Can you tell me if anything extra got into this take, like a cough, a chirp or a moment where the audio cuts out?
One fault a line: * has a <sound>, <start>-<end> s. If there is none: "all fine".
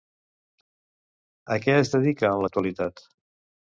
all fine